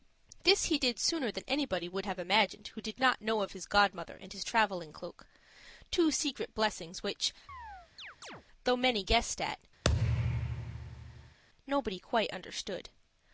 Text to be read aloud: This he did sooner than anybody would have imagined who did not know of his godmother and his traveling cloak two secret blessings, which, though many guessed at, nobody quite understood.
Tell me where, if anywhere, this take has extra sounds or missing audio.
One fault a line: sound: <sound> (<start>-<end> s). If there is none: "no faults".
sound: chirp (7.5-8.4 s)
sound: thud (9.8-11.4 s)